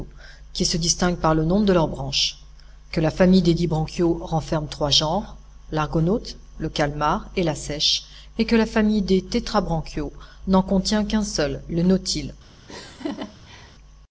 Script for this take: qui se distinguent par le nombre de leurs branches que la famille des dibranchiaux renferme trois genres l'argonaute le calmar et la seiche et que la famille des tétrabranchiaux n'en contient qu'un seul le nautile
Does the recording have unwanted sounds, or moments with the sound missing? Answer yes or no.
yes